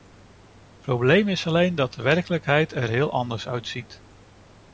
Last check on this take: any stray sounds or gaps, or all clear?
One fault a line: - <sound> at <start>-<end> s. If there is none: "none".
none